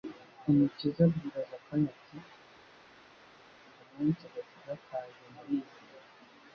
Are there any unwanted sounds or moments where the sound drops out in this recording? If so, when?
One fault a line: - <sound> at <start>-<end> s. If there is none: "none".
none